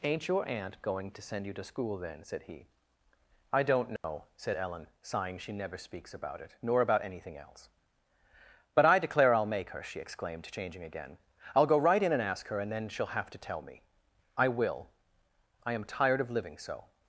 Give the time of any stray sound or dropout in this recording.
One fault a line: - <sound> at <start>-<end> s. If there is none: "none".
- dropout at 4.0-4.0 s